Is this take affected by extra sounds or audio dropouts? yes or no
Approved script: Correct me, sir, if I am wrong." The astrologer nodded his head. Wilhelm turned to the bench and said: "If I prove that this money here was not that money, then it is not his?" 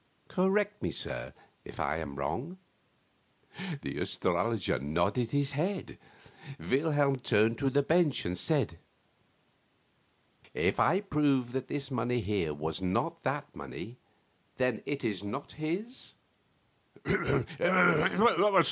no